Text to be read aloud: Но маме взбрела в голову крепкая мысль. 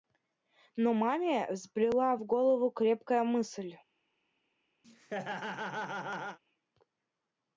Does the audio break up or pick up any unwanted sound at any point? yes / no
yes